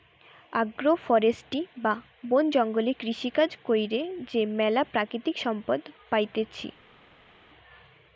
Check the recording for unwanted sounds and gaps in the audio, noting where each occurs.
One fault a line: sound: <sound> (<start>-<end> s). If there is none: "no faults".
no faults